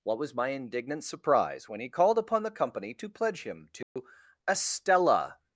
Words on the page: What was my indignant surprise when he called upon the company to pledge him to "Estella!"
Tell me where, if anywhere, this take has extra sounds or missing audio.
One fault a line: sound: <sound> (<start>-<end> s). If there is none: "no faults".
sound: dropout (3.8-4.0 s)